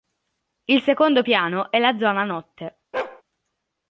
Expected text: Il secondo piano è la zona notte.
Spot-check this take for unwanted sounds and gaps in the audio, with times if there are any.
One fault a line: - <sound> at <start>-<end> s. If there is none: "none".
- bark at 2.9-3.2 s